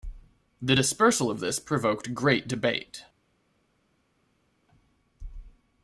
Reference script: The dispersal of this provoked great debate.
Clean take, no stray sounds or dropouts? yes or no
yes